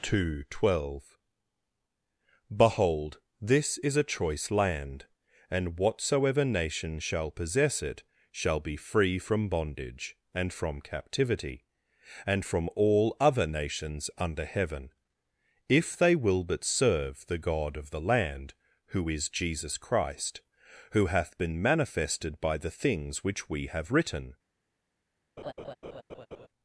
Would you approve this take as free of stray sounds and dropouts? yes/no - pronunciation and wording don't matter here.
no